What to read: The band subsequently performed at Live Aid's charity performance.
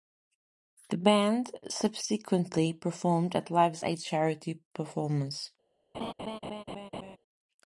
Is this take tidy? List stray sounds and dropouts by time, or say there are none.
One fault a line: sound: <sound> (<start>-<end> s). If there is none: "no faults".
sound: laugh (5.9-7.2 s)